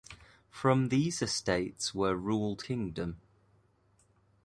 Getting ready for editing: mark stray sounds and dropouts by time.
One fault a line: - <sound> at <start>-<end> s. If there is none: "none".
none